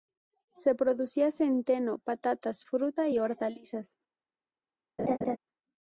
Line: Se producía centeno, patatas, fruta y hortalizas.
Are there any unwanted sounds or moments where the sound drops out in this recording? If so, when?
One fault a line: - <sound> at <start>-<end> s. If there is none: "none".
- laugh at 5.0-5.4 s